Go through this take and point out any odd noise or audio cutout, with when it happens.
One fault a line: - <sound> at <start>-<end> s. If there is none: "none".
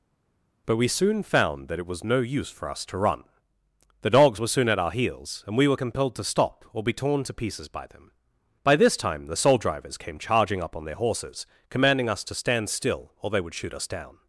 none